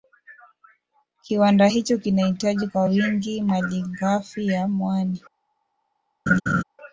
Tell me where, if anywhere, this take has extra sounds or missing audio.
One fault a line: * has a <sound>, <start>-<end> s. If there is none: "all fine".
* has a laugh, 6.3-6.6 s